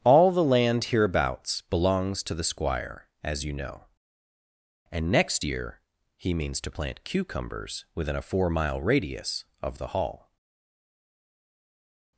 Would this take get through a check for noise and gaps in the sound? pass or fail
pass